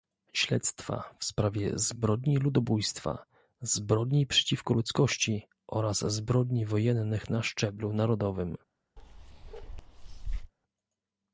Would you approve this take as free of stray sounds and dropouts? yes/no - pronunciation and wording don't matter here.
no